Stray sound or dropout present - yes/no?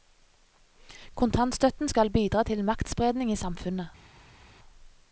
no